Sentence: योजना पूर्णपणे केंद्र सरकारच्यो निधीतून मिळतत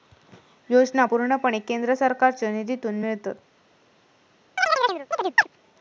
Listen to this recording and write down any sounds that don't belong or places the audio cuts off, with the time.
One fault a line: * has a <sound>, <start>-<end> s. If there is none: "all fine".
* has a chirp, 4.6-5.5 s